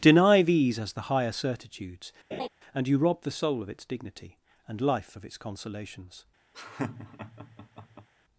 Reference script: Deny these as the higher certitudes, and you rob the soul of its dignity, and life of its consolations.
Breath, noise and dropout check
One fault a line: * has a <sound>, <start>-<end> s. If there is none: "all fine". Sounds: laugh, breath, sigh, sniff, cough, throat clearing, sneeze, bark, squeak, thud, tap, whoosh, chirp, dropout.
* has a laugh, 2.3-2.5 s
* has a laugh, 6.5-8.1 s